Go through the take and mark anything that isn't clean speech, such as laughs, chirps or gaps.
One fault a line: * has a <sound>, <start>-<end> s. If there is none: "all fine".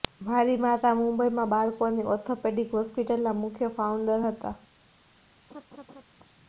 * has a laugh, 5.5-6.0 s